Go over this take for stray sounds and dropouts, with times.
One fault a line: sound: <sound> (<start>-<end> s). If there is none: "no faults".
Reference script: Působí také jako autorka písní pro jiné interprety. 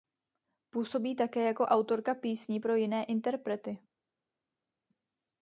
no faults